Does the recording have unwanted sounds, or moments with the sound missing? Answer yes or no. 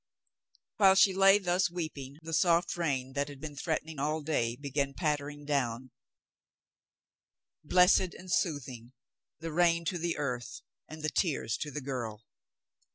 no